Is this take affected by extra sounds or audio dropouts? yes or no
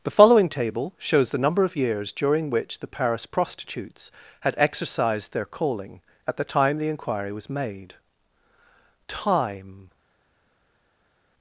no